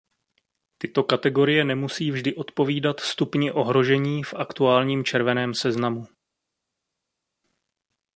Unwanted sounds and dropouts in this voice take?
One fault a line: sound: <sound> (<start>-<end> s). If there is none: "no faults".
no faults